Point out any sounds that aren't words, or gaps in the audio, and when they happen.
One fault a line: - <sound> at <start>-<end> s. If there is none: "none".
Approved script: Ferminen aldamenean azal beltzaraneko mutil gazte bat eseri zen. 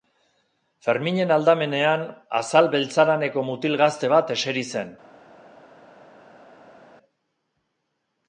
none